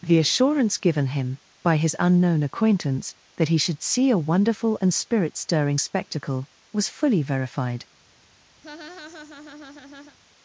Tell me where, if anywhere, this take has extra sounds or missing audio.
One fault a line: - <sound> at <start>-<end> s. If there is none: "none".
- laugh at 8.6-10.2 s